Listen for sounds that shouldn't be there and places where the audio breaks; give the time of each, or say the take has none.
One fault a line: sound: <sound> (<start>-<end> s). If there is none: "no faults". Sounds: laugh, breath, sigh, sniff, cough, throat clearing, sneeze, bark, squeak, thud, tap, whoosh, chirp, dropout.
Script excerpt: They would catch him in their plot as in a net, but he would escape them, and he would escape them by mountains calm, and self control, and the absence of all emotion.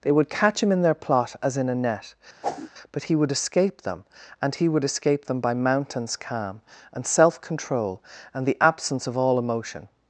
sound: whoosh (2.4-2.7 s)